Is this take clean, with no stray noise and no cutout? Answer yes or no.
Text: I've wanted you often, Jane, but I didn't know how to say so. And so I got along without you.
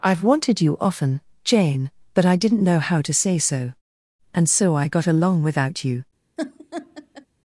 no